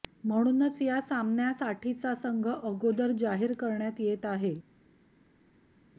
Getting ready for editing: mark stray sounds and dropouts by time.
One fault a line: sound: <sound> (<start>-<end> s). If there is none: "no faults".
no faults